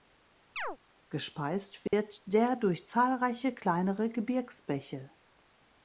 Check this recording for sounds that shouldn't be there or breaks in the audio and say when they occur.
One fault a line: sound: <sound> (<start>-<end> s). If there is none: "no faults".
sound: chirp (0.6-0.8 s)
sound: dropout (1.9-1.9 s)